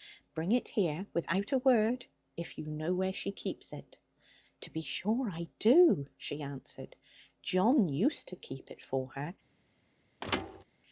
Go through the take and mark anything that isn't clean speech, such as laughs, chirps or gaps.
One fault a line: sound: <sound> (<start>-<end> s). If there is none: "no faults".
sound: thud (10.2-10.6 s)